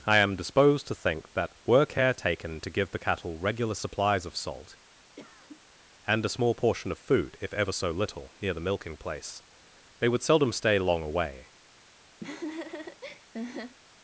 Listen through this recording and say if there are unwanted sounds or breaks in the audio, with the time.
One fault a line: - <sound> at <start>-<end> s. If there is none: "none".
- cough at 5.2-5.6 s
- laugh at 12.2-13.8 s